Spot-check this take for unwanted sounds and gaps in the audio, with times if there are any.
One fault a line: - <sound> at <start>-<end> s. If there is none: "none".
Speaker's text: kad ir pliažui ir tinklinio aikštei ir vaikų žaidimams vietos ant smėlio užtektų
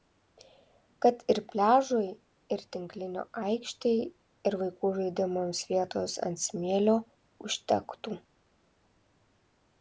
none